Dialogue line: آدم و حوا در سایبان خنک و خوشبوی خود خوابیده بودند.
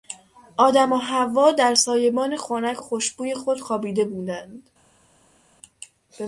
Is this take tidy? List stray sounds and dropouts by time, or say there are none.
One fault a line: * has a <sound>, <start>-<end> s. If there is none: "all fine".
all fine